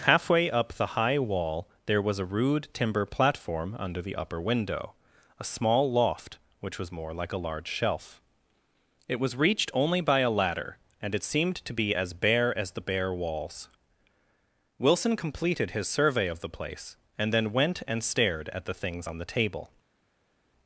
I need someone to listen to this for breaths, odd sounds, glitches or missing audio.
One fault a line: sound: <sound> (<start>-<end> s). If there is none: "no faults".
no faults